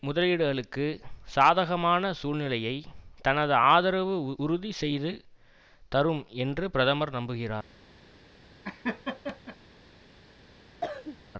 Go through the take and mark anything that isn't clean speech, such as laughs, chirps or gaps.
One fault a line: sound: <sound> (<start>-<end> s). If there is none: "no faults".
sound: laugh (8.6-9.6 s)
sound: cough (10.8-11.2 s)